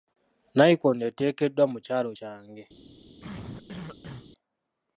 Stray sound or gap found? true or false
true